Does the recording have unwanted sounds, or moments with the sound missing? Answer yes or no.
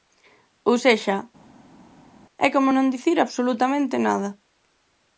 no